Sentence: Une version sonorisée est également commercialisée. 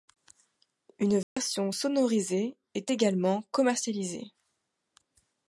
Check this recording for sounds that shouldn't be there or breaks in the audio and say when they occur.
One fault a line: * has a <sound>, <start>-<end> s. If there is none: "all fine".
* has a dropout, 1.2-1.4 s